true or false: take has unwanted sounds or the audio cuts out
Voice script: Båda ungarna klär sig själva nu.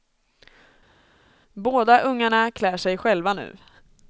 false